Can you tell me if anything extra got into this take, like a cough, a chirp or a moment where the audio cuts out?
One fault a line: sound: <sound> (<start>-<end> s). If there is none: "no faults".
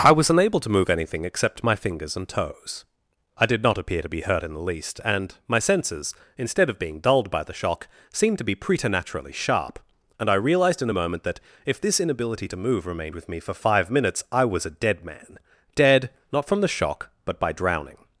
no faults